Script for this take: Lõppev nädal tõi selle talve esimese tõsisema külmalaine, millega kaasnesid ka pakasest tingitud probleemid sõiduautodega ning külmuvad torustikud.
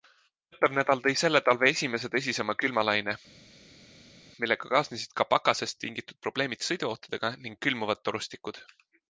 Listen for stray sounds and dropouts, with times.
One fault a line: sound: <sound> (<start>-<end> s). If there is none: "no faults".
no faults